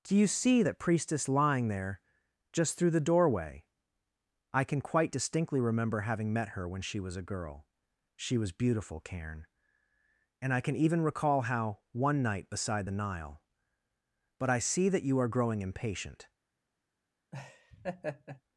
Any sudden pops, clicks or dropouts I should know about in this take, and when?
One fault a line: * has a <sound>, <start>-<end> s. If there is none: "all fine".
* has a laugh, 17.3-18.4 s